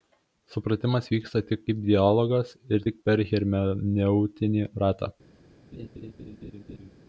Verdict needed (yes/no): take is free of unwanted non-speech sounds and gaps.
no